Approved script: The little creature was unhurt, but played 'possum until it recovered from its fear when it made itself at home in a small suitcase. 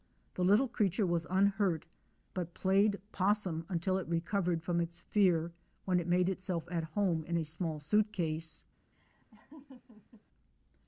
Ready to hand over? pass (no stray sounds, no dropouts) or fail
fail